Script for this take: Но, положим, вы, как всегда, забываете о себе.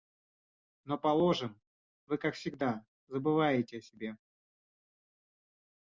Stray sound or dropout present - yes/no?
no